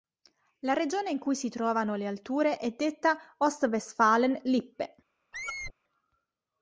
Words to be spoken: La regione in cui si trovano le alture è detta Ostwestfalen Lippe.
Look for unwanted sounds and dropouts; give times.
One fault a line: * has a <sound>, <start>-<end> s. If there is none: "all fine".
* has a squeak, 5.3-5.7 s